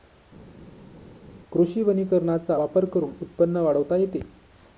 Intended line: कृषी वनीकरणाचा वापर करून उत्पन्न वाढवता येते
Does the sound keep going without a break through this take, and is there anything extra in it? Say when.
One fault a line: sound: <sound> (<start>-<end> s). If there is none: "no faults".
no faults